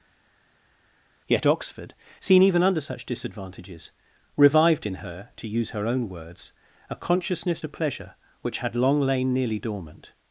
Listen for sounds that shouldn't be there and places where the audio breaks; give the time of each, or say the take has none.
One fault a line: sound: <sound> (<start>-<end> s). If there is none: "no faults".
no faults